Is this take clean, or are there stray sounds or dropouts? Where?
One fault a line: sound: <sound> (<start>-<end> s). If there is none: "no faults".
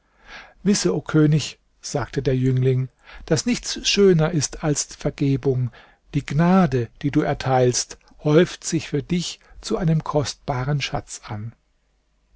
no faults